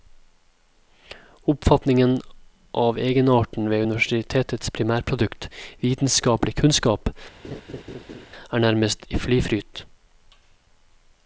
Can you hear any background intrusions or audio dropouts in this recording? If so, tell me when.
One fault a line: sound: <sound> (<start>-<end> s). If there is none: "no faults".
sound: laugh (7.4-8.3 s)